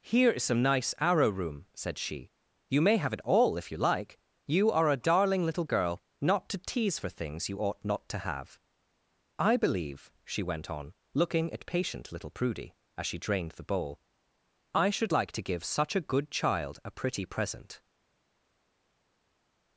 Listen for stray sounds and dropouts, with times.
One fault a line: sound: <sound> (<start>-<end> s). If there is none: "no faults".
no faults